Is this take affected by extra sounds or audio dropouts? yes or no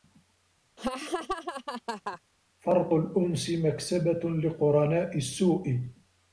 yes